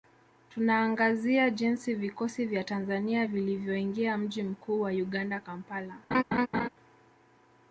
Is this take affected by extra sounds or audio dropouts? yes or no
yes